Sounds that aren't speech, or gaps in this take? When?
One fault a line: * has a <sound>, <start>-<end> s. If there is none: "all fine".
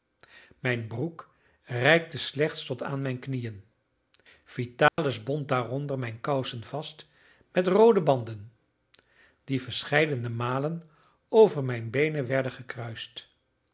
* has a dropout, 4.9-5.0 s